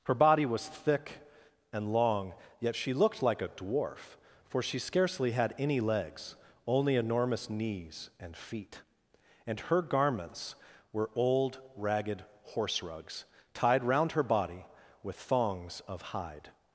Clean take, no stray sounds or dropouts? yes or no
yes